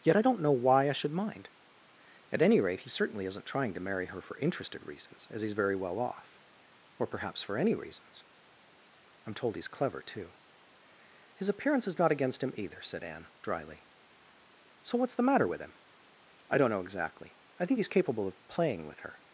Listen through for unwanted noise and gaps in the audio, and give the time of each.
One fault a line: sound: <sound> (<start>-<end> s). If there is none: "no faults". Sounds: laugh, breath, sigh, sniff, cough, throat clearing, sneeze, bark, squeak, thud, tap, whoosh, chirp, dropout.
no faults